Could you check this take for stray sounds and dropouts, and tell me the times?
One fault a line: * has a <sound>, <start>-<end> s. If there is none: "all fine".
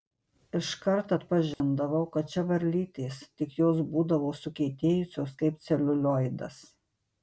* has a dropout, 1.5-1.6 s